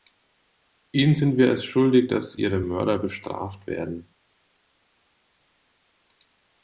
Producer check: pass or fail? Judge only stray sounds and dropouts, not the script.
pass